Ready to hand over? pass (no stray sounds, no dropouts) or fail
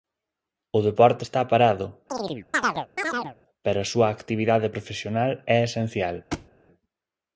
fail